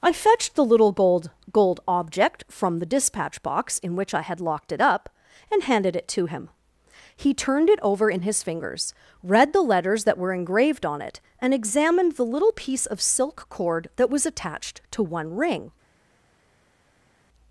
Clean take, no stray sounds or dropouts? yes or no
yes